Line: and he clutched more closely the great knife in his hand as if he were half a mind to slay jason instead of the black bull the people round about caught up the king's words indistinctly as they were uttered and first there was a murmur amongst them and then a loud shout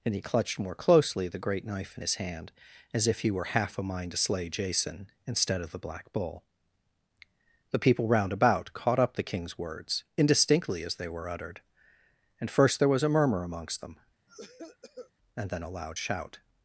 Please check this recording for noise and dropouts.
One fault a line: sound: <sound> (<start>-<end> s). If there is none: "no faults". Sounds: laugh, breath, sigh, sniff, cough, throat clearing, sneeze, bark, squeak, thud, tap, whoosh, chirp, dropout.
sound: cough (14.3-15.1 s)